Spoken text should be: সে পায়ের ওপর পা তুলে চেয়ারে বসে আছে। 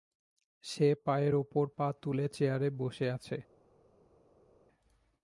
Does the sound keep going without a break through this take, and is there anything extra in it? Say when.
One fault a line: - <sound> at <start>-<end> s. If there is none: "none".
none